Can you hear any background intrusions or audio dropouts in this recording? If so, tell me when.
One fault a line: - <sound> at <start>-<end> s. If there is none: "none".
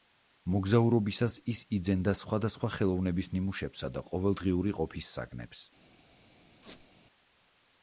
- squeak at 6.6-6.9 s